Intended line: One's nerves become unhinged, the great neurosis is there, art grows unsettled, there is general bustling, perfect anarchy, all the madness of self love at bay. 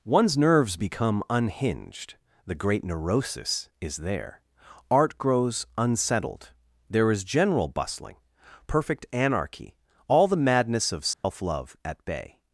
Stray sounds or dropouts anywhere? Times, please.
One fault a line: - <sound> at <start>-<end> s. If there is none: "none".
- dropout at 11.1-11.2 s